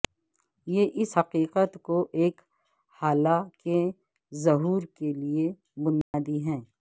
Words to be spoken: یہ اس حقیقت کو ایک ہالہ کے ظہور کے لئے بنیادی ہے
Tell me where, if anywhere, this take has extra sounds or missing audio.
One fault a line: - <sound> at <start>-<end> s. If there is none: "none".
- dropout at 6.0-6.1 s